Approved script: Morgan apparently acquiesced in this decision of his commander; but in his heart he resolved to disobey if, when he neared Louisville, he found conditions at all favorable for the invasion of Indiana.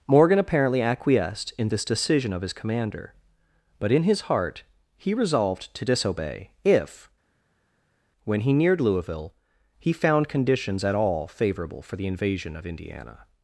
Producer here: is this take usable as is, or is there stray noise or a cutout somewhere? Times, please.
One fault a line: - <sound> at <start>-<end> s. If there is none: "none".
none